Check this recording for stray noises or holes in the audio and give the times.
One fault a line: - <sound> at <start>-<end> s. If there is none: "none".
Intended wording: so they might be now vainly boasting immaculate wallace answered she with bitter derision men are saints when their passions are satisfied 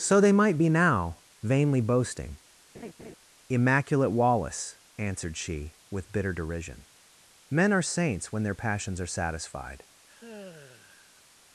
- laugh at 2.7-3.2 s
- sigh at 10.1-11.2 s